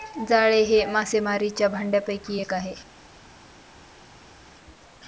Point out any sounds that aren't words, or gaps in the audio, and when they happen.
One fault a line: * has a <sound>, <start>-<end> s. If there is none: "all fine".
all fine